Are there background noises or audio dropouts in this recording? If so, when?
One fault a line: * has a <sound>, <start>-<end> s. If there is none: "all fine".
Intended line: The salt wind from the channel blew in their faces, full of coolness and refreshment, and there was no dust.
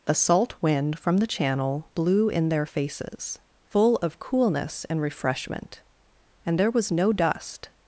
all fine